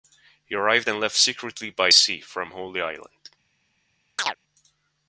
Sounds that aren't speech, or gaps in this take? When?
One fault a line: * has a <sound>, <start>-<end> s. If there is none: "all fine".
* has a chirp, 4.2-4.4 s